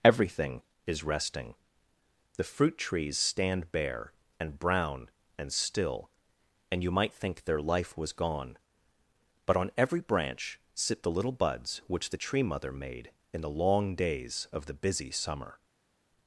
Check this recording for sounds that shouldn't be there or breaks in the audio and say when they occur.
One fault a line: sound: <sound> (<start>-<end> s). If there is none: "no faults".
no faults